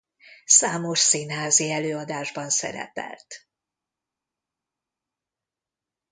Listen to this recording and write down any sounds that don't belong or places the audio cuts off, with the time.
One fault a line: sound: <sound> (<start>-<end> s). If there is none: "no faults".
no faults